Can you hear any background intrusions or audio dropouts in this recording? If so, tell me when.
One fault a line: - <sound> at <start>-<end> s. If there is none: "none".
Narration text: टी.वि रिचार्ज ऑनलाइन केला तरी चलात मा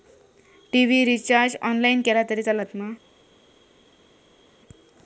none